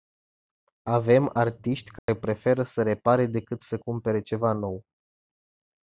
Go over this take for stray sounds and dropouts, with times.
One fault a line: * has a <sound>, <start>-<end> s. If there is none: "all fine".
* has a dropout, 2.0-2.1 s